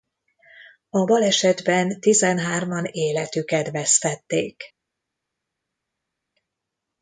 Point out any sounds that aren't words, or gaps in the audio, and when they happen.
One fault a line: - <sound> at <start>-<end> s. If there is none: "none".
none